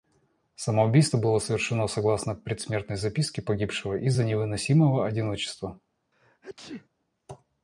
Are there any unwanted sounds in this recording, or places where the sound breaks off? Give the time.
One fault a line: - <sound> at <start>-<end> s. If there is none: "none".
- sneeze at 6.1-6.9 s